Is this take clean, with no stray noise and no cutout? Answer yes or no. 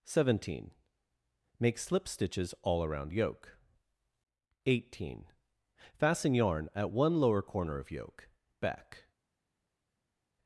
yes